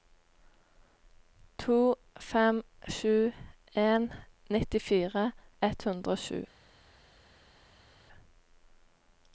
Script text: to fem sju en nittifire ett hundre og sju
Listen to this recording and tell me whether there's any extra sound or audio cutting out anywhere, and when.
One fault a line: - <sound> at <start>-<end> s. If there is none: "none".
none